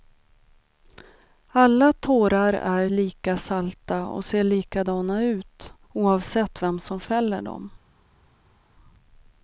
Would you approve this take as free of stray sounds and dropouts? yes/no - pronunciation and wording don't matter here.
yes